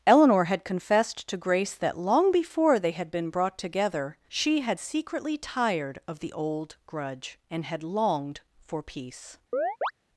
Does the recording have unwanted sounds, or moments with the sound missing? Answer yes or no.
yes